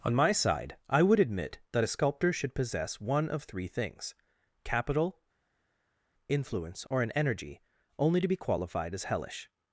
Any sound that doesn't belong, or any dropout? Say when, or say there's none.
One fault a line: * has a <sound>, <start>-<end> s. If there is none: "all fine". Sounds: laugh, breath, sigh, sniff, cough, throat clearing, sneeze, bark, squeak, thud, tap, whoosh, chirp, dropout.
all fine